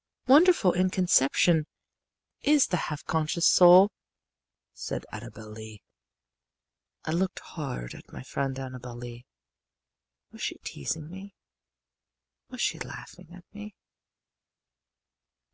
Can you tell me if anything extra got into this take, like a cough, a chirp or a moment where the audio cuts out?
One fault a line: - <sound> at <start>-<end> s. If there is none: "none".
none